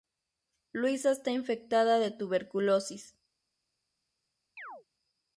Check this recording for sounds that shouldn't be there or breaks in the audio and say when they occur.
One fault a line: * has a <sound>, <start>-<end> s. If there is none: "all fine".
* has a chirp, 4.6-4.8 s